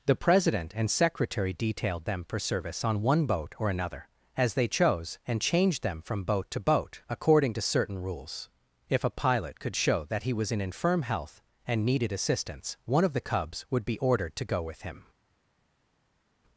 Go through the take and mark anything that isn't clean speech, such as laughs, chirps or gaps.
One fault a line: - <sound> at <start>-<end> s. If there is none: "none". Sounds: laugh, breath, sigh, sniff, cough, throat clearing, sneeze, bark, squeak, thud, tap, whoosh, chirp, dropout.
none